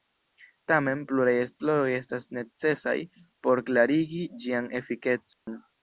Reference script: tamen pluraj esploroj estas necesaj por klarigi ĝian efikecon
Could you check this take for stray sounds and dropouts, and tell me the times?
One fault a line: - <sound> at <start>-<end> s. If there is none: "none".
- dropout at 5.3-5.5 s